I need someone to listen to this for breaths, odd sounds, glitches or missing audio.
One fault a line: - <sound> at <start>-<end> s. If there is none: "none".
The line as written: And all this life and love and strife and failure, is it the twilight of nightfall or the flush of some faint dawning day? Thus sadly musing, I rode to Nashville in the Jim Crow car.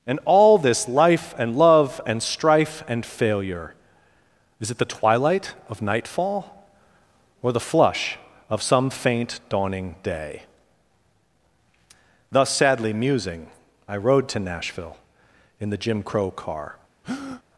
- breath at 17.0-17.4 s